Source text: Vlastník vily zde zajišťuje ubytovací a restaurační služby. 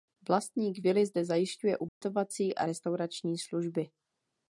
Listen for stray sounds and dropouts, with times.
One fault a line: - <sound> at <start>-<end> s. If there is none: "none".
- dropout at 1.9-2.0 s